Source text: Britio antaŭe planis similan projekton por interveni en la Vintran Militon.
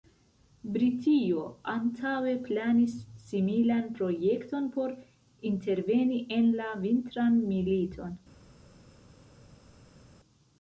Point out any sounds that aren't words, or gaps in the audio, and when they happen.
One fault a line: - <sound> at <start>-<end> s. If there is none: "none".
none